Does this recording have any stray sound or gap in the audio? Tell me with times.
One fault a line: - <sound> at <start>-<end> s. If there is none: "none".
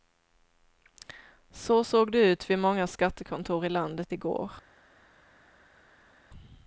none